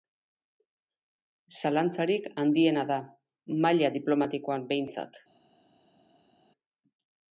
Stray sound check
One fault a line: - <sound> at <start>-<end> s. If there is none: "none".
none